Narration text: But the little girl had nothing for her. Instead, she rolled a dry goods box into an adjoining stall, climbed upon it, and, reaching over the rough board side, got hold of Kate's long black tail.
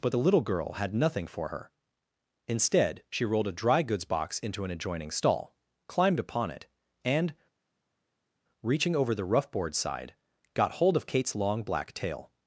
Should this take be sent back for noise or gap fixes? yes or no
no